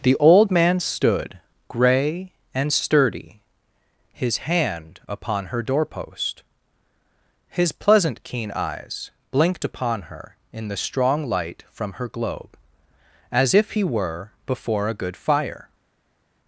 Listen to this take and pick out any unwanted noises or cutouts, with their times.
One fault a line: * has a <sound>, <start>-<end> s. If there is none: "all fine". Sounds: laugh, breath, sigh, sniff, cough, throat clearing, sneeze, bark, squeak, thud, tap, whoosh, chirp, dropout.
all fine